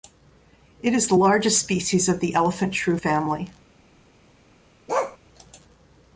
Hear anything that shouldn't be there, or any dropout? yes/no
yes